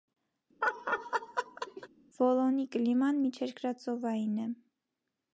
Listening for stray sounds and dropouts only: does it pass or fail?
fail